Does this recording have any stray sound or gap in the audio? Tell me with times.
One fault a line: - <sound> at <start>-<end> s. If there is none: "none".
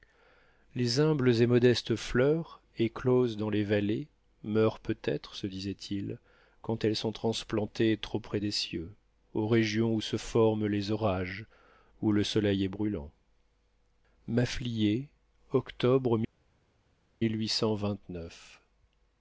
none